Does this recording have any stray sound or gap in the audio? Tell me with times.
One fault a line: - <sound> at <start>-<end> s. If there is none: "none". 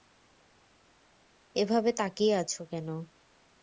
none